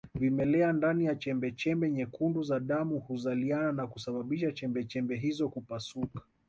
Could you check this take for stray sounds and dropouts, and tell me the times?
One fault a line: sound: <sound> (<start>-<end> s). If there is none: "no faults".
no faults